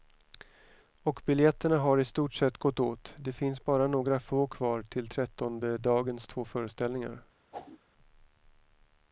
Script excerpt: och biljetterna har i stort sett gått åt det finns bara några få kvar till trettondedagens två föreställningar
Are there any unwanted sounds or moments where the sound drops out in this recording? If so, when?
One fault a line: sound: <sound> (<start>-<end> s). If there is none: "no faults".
sound: whoosh (7.5-7.8 s)